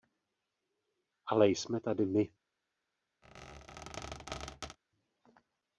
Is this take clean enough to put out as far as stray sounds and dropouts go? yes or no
no